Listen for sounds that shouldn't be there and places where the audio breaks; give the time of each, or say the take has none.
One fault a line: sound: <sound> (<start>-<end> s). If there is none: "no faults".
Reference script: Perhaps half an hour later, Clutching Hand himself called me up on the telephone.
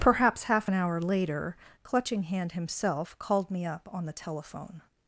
no faults